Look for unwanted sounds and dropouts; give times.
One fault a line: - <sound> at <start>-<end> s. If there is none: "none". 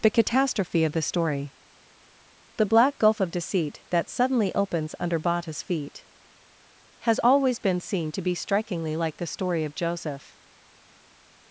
none